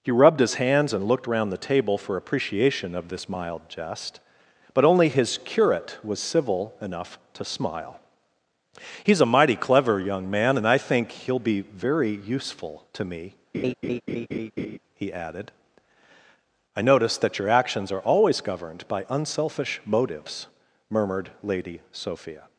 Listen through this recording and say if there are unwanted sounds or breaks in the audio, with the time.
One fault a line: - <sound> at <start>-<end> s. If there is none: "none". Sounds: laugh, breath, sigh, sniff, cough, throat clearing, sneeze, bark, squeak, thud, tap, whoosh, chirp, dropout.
- laugh at 13.5-14.8 s